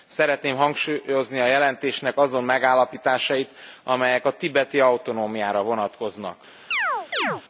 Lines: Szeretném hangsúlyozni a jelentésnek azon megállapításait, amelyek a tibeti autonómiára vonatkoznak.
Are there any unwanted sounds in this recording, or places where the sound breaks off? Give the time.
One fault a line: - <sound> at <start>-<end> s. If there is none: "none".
- chirp at 6.7-7.4 s